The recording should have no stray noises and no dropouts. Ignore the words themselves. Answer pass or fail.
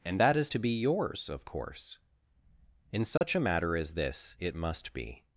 fail